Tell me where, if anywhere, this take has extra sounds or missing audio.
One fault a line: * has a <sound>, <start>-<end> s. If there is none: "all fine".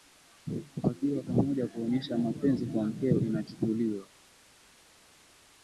all fine